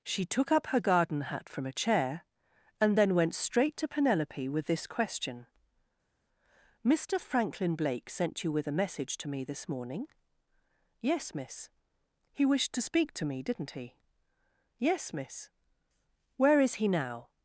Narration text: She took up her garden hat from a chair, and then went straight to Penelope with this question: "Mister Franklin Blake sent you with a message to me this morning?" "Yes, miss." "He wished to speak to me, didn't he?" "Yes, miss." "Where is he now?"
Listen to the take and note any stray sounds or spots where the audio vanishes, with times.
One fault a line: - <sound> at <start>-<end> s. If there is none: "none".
none